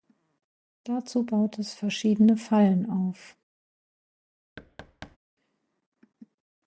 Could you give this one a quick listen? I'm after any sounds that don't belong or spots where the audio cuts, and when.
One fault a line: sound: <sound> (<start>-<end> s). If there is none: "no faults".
sound: thud (4.6-5.2 s)